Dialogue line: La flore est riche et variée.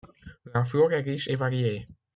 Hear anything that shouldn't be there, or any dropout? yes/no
no